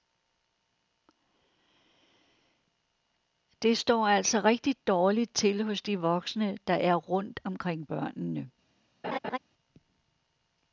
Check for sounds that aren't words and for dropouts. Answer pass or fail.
fail